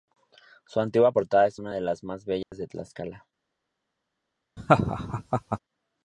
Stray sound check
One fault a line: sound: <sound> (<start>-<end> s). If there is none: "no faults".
sound: dropout (2.4-2.5 s)
sound: laugh (4.6-5.6 s)